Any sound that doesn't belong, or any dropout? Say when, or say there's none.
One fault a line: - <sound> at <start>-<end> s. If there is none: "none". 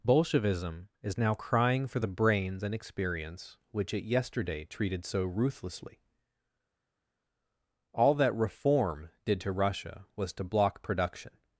none